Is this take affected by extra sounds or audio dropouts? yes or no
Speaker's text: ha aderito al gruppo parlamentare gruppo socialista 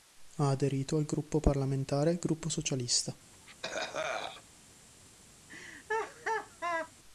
yes